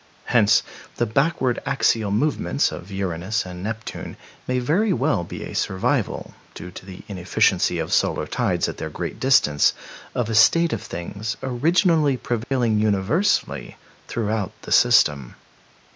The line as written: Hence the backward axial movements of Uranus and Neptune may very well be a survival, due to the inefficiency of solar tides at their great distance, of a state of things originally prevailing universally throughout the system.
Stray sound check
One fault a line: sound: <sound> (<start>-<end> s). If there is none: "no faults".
sound: dropout (12.4-12.5 s)